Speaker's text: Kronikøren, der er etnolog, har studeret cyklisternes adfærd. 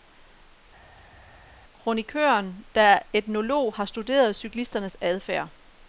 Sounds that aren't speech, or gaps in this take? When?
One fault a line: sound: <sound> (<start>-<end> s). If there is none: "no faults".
no faults